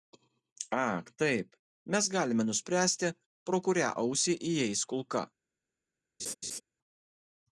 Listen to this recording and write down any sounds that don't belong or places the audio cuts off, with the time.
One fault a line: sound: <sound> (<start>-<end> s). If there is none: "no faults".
sound: laugh (6.2-6.6 s)